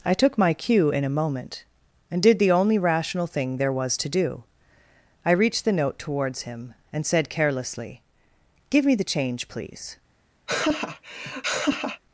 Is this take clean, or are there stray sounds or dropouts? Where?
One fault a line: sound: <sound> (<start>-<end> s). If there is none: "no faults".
sound: laugh (10.5-12.0 s)